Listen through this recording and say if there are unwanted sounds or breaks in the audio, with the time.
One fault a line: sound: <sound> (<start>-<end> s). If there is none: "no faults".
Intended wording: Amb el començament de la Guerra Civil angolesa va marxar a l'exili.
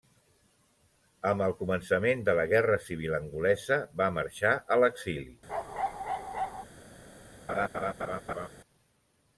sound: bark (5.5-6.7 s)
sound: laugh (7.5-8.5 s)